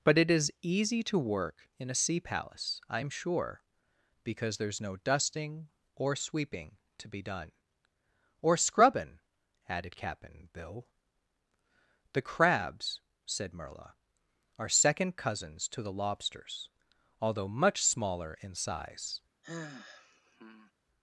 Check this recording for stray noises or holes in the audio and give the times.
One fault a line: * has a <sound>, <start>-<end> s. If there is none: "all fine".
* has a sigh, 19.4-20.7 s